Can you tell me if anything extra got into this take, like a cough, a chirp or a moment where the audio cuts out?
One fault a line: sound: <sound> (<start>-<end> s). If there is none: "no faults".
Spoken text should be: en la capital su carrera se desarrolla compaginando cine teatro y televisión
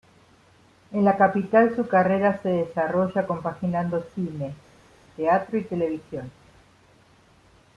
no faults